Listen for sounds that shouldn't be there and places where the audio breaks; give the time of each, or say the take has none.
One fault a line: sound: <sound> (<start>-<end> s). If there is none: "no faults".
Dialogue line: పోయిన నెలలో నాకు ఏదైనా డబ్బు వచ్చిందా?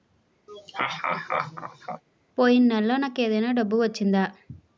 sound: laugh (0.5-2.0 s)